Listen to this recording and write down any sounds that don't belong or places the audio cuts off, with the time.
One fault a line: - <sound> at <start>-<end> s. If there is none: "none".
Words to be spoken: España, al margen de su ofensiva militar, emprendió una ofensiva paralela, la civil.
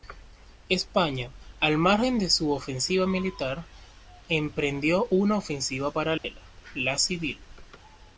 - dropout at 6.2-6.2 s